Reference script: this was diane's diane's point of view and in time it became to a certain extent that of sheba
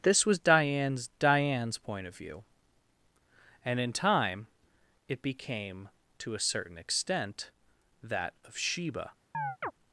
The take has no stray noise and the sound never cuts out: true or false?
false